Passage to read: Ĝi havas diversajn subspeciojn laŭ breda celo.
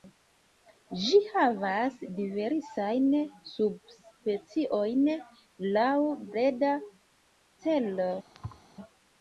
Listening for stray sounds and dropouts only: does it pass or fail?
fail